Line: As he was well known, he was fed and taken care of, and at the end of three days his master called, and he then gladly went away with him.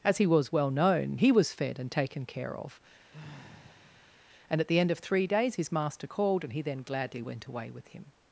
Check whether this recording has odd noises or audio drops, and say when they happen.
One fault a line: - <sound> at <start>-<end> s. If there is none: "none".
- sigh at 3.1-4.2 s